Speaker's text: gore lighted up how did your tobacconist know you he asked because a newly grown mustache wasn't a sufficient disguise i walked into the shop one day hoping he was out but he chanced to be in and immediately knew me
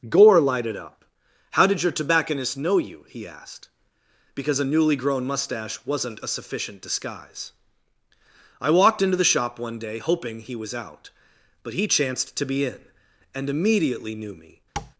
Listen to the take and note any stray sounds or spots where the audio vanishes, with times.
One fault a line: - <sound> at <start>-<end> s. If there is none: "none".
- tap at 14.8-14.9 s